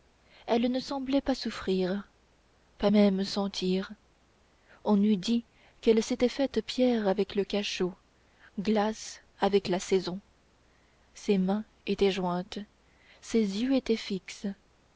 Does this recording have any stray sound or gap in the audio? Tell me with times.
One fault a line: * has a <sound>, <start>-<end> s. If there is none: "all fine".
all fine